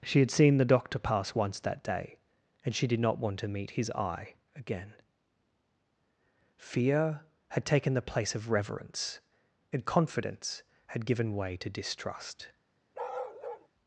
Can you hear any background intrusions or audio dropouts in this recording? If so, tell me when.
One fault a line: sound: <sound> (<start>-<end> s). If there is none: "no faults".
sound: bark (12.9-13.7 s)